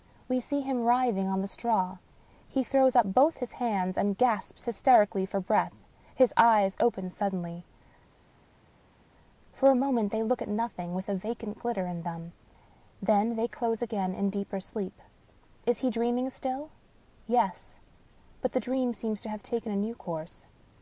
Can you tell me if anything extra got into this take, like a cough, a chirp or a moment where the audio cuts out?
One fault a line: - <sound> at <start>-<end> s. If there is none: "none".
none